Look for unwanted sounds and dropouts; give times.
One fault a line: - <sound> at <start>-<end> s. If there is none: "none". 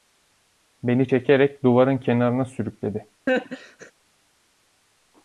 - laugh at 3.3-3.9 s